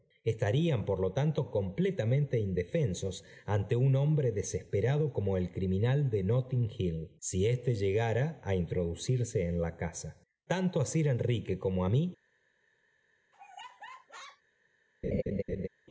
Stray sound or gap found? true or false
true